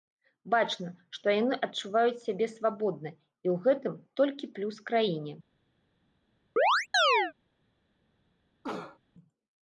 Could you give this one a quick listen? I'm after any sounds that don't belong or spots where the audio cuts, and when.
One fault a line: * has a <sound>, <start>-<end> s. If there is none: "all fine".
* has a chirp, 6.6-7.3 s
* has a cough, 8.6-9.0 s